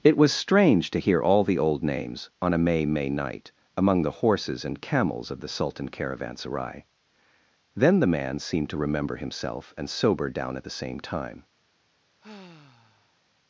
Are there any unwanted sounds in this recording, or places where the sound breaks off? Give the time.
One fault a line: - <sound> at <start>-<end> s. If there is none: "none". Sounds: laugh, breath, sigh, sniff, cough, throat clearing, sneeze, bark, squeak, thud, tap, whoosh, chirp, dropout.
- sigh at 12.2-13.2 s